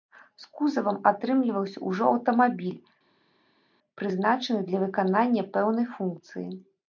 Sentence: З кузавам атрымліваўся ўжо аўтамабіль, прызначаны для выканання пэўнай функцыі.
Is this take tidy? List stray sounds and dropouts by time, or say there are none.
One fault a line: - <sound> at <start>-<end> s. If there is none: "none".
none